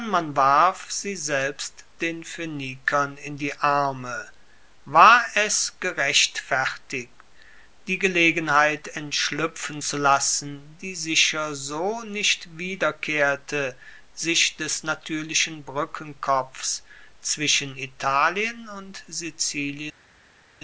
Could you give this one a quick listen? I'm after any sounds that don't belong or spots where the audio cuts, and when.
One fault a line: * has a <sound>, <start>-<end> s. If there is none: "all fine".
all fine